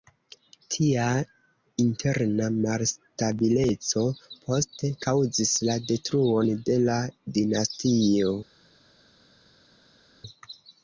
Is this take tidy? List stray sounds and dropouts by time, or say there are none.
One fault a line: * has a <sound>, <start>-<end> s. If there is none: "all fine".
all fine